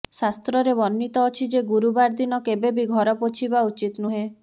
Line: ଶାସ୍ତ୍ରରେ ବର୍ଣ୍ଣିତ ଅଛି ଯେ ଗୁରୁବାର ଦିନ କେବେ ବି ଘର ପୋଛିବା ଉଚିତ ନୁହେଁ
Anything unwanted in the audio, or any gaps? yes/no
no